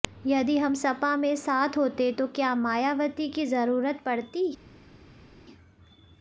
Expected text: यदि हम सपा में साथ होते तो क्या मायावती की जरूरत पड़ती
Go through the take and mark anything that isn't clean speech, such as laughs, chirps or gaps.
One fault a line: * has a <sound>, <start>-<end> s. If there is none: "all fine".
all fine